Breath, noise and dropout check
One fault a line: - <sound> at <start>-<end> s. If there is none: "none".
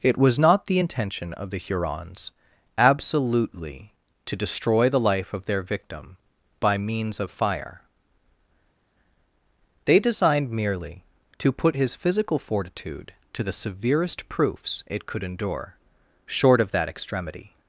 none